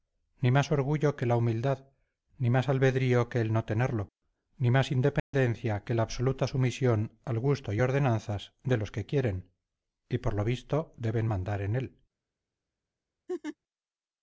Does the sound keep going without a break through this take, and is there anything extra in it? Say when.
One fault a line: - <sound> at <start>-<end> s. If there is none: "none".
- dropout at 5.2-5.3 s
- laugh at 13.3-13.6 s